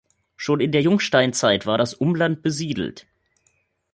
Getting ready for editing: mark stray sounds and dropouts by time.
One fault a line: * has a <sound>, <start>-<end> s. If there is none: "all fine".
all fine